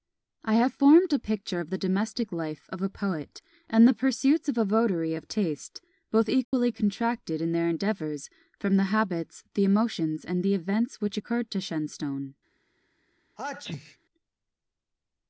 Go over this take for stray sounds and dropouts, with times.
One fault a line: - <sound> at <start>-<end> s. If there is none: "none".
- dropout at 6.4-6.5 s
- sneeze at 13.4-14.0 s